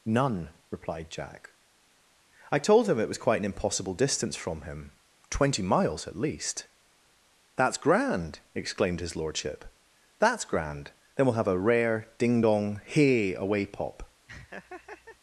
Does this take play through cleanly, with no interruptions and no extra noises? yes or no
no